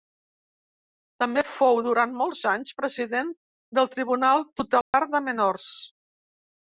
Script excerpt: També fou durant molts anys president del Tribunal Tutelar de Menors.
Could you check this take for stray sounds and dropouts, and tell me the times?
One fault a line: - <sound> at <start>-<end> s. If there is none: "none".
- dropout at 4.8-4.9 s